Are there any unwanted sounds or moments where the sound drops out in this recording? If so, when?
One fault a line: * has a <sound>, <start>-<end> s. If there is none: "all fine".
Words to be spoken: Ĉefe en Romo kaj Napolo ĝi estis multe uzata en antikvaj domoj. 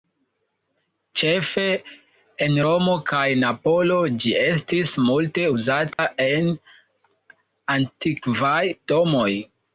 * has a dropout, 5.9-6.0 s